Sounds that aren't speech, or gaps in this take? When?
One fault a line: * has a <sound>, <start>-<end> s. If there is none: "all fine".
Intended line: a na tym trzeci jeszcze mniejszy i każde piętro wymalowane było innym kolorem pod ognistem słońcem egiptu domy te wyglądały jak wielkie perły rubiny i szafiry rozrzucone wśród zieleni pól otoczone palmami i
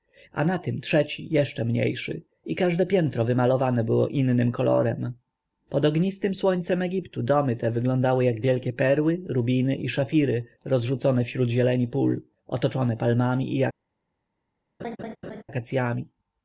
* has a laugh, 14.8-15.4 s